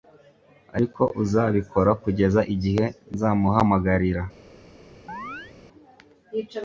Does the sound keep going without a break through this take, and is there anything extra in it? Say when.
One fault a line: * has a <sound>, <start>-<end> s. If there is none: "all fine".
* has a chirp, 5.1-5.5 s